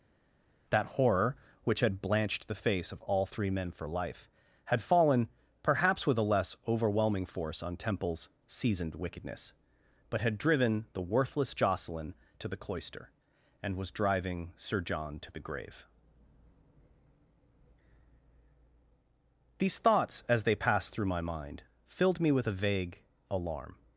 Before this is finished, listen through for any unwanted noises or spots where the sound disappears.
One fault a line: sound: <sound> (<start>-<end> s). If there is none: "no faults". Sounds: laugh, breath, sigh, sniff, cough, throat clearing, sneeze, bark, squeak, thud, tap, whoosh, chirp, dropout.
no faults